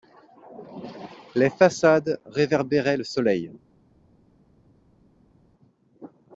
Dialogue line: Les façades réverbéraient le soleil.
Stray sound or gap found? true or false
false